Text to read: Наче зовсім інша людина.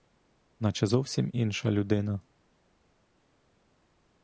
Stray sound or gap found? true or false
false